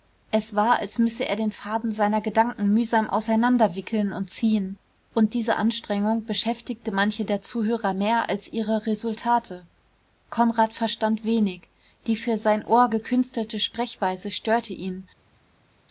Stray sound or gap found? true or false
false